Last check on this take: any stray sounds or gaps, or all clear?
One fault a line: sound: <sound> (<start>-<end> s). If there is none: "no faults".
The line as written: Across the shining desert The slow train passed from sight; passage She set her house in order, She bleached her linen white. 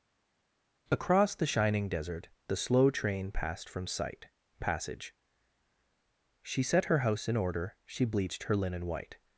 no faults